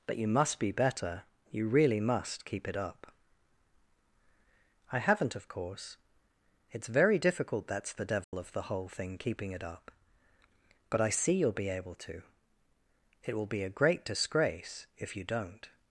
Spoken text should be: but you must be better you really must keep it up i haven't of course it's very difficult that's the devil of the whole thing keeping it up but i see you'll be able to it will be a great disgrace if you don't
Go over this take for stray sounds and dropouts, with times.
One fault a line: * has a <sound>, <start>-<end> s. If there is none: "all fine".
* has a dropout, 8.2-8.3 s